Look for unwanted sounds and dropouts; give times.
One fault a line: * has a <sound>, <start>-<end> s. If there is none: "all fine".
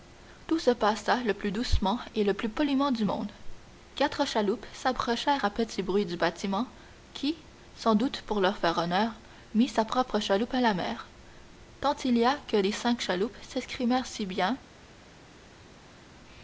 all fine